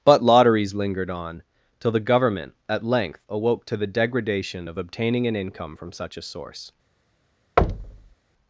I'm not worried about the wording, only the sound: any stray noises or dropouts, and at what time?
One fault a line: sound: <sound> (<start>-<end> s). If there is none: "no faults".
sound: thud (7.6-8.1 s)